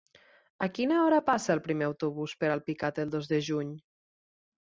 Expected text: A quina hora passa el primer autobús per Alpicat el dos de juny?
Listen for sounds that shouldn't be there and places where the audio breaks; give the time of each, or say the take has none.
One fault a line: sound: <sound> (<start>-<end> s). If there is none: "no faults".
no faults